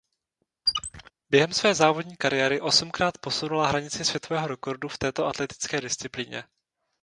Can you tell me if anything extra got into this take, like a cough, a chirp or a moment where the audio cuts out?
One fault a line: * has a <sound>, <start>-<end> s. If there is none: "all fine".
* has a squeak, 0.7-1.1 s